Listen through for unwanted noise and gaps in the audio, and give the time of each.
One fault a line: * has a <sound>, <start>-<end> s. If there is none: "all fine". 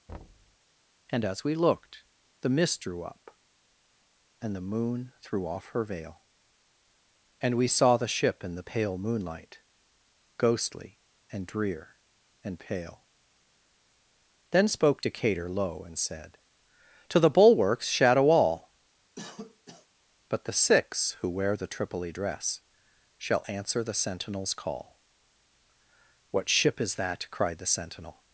* has a thud, 0.1-0.6 s
* has a cough, 19.2-19.9 s